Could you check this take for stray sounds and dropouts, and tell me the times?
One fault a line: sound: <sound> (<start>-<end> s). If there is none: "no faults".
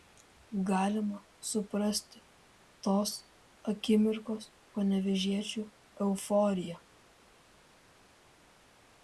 no faults